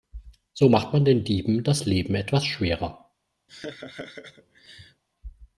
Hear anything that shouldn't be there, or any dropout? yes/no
yes